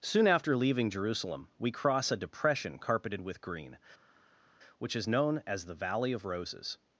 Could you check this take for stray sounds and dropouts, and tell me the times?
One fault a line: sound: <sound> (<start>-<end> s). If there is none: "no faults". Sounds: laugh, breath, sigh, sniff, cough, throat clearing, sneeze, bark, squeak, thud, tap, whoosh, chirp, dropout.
no faults